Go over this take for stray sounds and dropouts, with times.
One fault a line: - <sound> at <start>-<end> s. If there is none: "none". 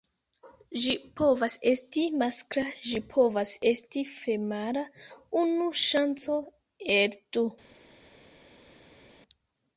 none